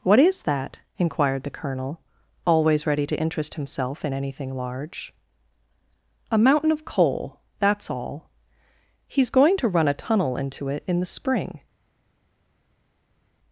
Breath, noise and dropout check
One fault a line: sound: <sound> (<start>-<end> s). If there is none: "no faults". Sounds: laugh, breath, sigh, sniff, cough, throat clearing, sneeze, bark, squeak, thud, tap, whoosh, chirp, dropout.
no faults